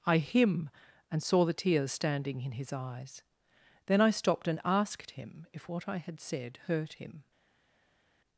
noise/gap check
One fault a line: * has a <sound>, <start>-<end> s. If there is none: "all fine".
all fine